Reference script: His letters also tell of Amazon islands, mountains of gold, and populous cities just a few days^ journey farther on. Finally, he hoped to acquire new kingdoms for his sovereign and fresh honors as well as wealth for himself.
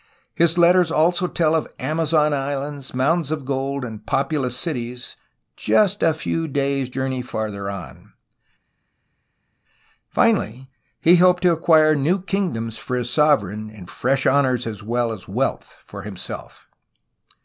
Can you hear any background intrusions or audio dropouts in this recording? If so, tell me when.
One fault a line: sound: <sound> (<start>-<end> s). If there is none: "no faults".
no faults